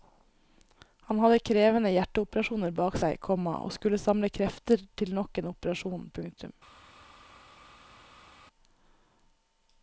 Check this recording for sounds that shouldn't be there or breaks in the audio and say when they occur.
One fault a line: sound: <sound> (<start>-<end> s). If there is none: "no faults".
no faults